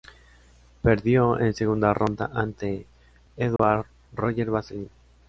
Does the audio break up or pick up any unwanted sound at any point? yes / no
yes